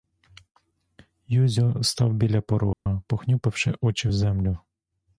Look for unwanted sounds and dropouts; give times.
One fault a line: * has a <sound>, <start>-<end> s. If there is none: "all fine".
* has a dropout, 2.7-2.9 s